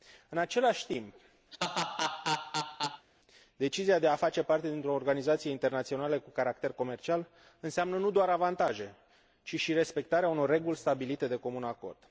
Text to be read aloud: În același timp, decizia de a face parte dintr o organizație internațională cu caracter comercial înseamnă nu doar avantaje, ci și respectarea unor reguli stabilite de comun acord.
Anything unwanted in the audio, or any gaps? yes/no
yes